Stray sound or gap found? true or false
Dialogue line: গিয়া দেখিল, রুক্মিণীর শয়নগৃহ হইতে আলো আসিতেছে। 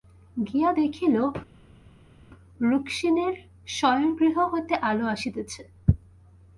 false